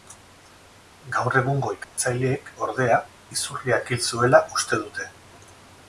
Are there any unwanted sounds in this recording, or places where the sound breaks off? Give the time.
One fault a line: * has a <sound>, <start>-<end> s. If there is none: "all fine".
* has a dropout, 1.8-2.0 s